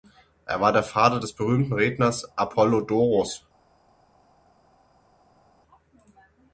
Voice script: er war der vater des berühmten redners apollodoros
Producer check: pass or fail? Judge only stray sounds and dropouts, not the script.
pass